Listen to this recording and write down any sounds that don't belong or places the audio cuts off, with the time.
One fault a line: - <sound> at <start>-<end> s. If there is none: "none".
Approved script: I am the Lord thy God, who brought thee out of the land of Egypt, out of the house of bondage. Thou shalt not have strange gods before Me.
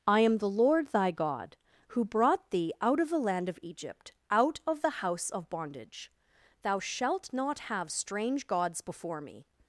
none